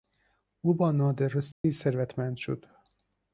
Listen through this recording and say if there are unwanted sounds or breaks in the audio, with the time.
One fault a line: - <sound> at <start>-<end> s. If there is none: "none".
- dropout at 1.5-1.6 s